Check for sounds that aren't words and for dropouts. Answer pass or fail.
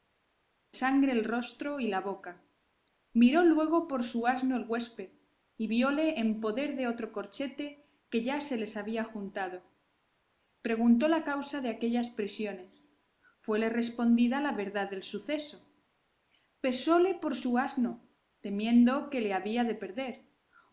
pass